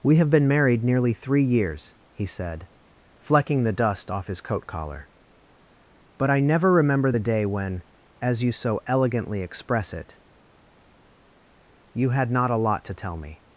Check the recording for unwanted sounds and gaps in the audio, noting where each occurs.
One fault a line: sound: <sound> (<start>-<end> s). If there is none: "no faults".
no faults